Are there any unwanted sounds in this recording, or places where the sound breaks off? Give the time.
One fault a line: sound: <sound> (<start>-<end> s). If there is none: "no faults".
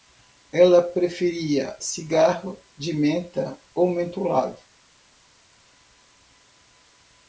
no faults